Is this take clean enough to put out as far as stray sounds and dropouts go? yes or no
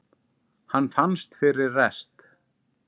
yes